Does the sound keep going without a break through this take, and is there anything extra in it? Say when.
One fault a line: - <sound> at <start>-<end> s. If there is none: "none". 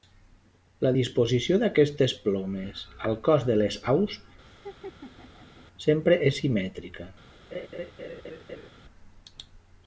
- laugh at 4.4-5.7 s
- laugh at 7.5-8.7 s